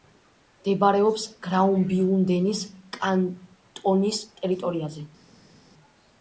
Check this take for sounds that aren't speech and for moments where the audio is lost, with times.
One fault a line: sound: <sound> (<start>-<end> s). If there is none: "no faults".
no faults